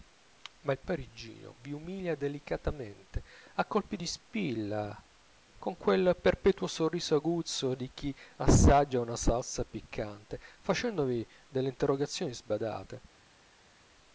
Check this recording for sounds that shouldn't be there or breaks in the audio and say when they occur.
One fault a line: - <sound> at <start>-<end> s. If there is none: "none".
none